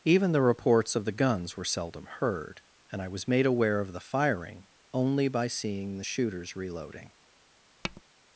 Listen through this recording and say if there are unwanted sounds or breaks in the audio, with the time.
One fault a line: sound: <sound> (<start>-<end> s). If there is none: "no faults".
sound: tap (7.8-8.0 s)